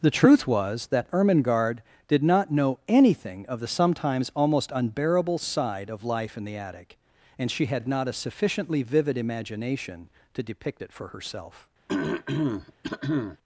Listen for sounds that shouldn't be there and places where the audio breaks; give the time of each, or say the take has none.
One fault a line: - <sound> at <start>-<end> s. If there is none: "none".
- throat clearing at 11.9-13.4 s